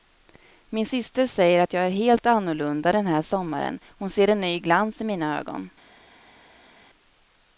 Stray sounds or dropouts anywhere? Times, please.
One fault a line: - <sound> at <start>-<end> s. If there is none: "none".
none